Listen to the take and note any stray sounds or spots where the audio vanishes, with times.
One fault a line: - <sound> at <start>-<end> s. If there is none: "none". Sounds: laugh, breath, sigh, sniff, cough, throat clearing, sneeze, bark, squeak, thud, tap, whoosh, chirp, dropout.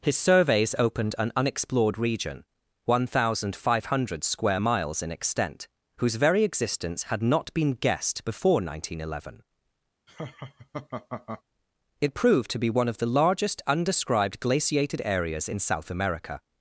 - laugh at 10.1-11.4 s